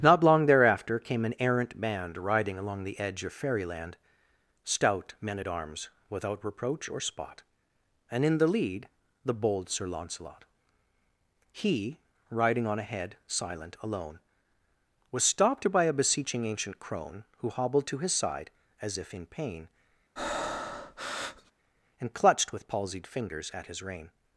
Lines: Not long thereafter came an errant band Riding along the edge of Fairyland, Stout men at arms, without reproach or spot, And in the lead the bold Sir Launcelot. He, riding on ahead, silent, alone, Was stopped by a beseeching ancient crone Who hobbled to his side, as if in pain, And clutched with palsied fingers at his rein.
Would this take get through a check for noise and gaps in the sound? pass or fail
fail